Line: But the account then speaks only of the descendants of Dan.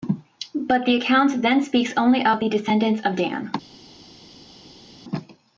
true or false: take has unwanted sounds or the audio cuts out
false